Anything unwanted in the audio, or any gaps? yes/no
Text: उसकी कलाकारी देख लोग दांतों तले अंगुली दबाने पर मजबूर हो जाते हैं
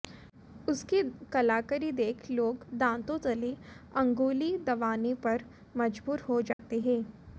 yes